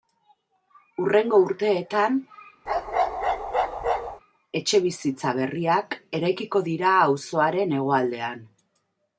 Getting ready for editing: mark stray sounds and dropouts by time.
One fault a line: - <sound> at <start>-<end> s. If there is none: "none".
- bark at 2.7-4.2 s